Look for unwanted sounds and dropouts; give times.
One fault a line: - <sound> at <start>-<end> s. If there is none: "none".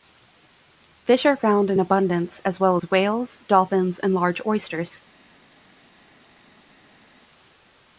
none